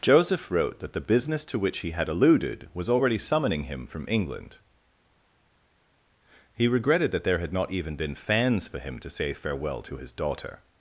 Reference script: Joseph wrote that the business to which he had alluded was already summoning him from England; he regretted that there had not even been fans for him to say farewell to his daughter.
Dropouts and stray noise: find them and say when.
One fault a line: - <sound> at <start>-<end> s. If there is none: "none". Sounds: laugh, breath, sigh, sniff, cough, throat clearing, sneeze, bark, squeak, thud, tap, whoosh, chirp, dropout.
none